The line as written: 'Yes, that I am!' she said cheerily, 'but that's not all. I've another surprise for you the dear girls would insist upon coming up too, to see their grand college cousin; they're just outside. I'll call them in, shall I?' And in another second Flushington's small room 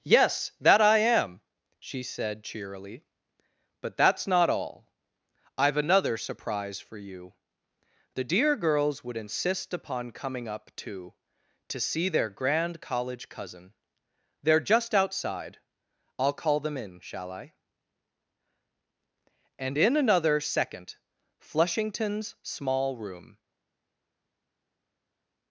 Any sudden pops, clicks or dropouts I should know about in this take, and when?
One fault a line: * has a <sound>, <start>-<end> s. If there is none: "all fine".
all fine